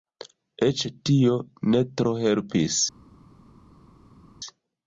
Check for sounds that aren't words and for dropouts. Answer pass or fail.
pass